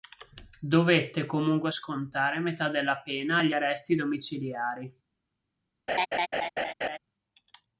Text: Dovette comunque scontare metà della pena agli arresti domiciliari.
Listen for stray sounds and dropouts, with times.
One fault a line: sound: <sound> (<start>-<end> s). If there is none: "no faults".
sound: laugh (5.9-7.0 s)